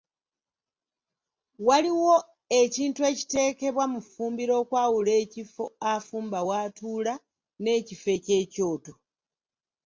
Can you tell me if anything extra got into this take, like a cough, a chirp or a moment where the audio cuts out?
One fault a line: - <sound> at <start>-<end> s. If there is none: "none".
none